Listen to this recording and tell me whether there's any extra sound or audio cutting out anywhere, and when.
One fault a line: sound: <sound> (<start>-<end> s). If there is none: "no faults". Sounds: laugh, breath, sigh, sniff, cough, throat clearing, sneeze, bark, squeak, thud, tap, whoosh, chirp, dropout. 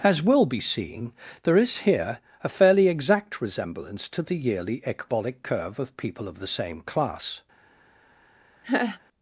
sound: laugh (8.6-9.0 s)